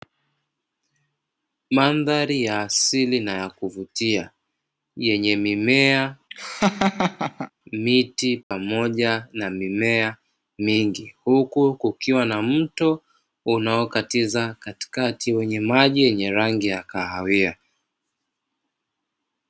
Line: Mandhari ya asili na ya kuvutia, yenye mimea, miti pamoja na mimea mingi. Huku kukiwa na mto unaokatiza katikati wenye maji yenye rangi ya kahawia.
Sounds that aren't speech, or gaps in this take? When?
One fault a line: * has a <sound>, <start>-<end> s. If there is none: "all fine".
* has a laugh, 6.3-7.5 s
* has a dropout, 8.4-8.5 s